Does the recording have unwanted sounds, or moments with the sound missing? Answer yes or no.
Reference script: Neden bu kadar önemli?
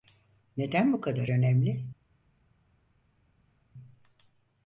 no